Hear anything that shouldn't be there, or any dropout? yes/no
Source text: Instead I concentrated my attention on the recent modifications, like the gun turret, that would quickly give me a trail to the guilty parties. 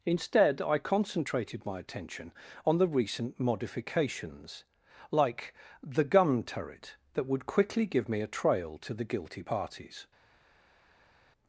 no